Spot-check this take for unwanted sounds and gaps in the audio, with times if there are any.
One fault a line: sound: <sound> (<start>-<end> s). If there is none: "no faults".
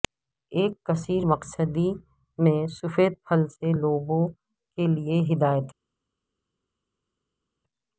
no faults